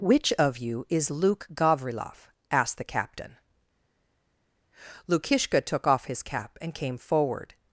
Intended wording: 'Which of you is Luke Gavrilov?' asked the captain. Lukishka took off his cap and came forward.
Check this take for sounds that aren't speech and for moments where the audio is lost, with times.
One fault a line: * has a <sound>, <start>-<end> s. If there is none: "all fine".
all fine